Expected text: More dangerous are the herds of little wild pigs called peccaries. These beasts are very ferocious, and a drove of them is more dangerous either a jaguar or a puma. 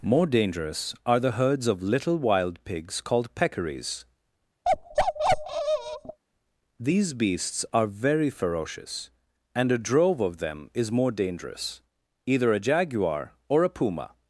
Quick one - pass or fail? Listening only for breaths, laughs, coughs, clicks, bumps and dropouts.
fail